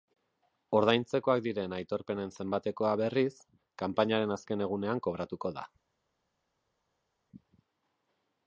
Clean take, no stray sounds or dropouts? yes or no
yes